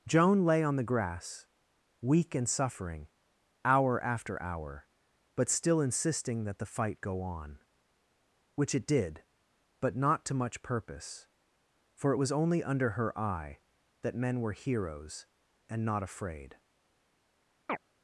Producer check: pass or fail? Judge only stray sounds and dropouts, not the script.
fail